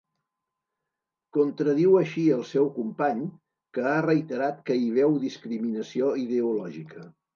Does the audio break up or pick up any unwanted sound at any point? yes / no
no